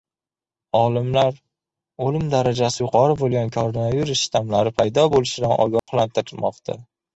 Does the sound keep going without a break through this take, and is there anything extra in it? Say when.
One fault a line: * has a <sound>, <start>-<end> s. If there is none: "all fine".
* has a dropout, 5.8-5.9 s